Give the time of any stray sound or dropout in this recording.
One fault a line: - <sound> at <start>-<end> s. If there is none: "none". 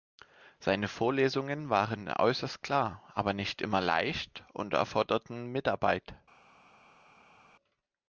none